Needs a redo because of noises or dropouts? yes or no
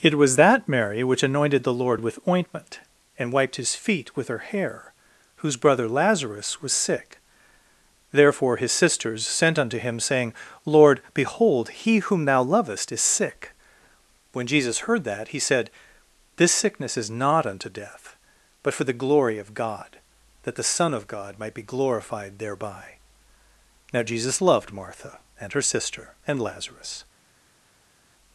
no